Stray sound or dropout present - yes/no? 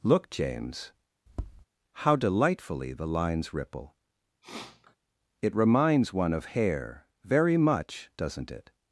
yes